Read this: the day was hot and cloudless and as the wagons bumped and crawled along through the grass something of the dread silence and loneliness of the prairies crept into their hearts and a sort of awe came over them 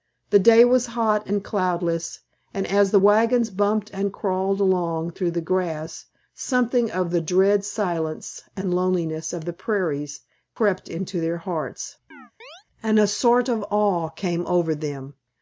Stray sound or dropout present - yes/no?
yes